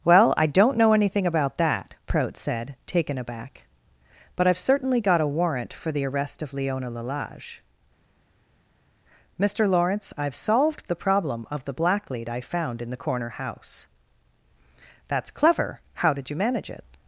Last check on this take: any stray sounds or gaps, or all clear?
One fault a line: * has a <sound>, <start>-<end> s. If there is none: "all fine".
all fine